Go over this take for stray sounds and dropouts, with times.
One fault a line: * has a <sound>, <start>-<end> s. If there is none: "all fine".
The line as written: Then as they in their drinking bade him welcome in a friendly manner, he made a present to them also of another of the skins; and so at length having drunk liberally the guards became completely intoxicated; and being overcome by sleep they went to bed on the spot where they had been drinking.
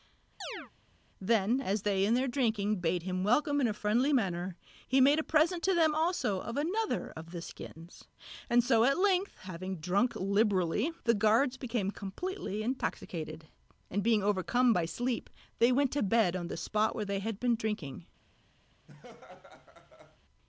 * has a chirp, 0.4-0.7 s
* has a laugh, 18.9-20.2 s